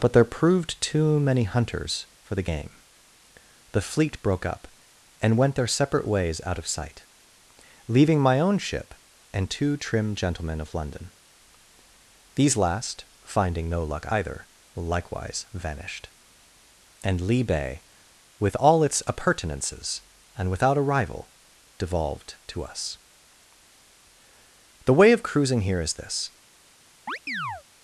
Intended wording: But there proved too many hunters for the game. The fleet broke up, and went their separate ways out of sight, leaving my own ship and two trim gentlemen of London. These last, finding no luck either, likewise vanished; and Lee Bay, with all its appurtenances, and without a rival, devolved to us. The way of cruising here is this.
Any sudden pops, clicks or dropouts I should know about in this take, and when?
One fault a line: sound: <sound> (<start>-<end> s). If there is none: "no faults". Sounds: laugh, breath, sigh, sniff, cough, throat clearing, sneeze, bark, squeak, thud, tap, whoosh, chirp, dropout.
sound: chirp (27.1-27.6 s)